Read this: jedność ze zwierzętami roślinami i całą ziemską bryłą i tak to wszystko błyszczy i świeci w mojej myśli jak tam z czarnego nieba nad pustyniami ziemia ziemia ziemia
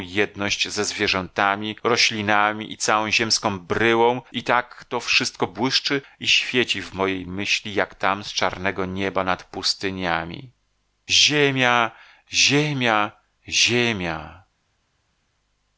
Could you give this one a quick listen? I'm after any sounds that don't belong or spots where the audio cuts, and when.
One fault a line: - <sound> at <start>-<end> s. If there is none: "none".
none